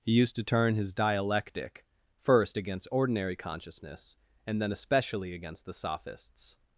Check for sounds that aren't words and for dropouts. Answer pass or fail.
pass